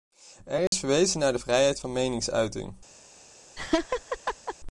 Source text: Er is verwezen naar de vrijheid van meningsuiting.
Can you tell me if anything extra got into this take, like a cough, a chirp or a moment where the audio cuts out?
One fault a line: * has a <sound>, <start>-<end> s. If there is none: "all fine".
* has a dropout, 0.7-0.7 s
* has a laugh, 3.6-4.6 s